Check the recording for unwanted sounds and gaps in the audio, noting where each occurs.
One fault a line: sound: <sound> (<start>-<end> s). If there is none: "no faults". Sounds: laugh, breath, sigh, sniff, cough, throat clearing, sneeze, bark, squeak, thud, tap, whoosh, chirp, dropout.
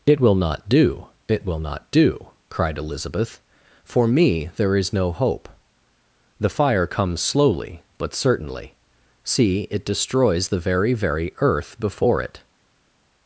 no faults